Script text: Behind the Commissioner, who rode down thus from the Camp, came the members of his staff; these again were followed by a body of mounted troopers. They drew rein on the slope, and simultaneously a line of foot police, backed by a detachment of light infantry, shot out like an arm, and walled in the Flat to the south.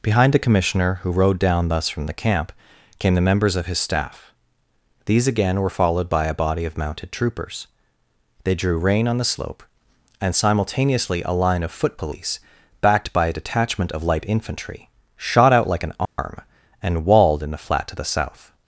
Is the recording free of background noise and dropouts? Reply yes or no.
no